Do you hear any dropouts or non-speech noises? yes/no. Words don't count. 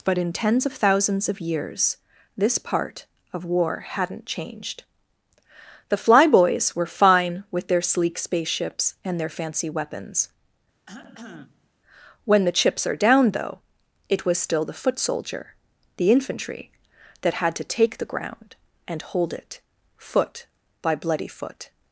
yes